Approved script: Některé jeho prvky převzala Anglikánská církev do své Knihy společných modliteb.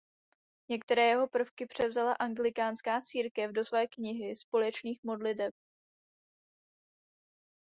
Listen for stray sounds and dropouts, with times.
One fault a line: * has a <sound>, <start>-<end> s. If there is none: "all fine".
all fine